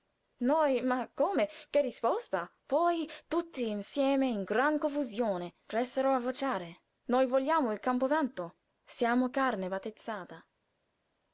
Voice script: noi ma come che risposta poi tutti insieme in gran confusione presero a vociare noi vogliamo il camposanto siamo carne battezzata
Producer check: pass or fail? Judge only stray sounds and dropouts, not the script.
pass